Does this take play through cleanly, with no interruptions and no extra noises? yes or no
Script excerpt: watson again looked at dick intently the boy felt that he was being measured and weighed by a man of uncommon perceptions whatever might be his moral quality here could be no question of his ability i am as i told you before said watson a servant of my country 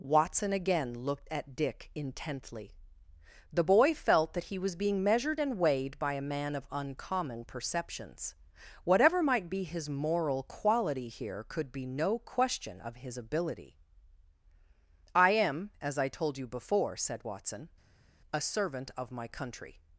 yes